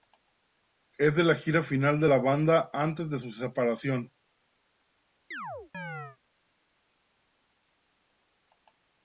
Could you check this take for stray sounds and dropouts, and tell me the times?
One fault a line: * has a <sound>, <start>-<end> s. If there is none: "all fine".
* has a chirp, 5.3-6.2 s